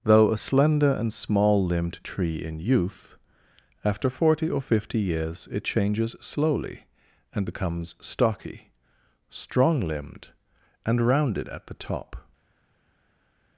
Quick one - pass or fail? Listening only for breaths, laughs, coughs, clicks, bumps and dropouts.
pass